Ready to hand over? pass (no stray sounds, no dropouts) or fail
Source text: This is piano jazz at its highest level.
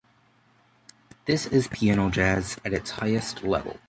pass